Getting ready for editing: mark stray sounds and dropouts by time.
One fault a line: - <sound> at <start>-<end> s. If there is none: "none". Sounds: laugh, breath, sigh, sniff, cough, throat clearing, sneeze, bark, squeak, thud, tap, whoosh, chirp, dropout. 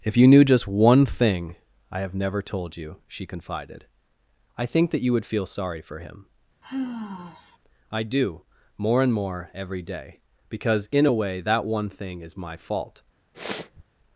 - sigh at 6.6-7.6 s
- sniff at 13.3-13.8 s